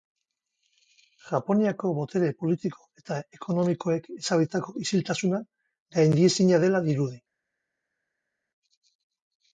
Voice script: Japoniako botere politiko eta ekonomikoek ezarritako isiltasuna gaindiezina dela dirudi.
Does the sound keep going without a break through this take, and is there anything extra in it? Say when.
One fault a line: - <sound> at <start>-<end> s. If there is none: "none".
none